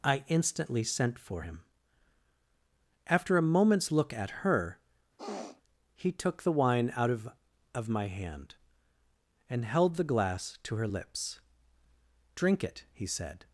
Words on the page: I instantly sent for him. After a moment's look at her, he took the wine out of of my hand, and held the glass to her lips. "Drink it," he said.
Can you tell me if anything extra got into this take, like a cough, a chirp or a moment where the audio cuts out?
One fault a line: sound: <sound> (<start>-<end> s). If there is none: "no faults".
sound: sniff (5.2-5.6 s)